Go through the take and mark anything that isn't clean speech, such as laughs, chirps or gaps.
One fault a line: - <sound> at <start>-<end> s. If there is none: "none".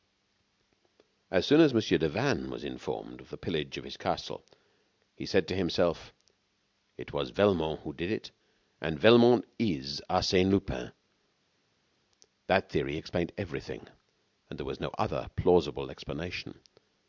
none